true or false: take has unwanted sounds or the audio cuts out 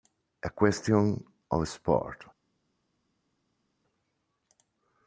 false